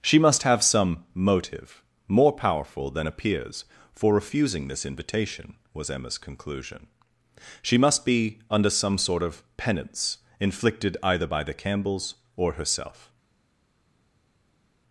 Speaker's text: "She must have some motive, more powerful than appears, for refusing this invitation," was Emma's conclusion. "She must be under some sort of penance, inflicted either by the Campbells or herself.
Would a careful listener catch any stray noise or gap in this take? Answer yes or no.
no